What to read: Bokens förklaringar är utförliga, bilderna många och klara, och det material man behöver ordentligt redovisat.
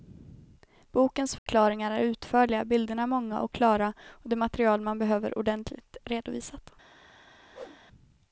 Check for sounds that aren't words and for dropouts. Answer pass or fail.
fail